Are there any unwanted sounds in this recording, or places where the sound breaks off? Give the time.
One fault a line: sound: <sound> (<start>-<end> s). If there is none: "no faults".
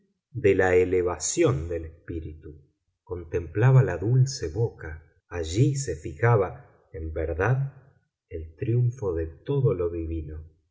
no faults